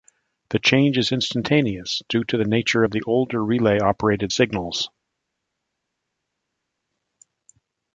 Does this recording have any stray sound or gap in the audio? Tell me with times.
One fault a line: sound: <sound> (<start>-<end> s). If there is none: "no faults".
no faults